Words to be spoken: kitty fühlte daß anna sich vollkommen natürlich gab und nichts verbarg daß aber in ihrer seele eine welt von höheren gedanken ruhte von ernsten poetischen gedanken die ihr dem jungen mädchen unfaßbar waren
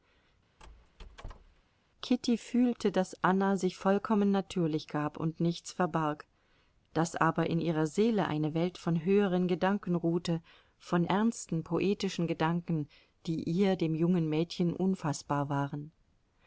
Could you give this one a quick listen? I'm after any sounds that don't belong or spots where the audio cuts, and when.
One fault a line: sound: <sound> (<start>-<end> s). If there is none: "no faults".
sound: squeak (0.6-1.6 s)